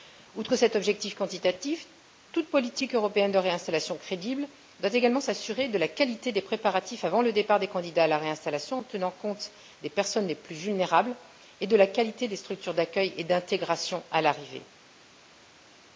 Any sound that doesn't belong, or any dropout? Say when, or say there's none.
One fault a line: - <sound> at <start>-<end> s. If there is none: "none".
none